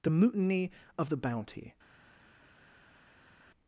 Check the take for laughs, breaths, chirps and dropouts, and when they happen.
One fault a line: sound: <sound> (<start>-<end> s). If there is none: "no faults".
no faults